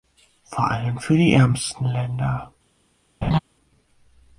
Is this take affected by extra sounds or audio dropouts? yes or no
yes